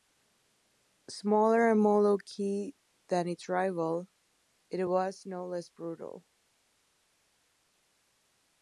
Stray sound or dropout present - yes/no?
no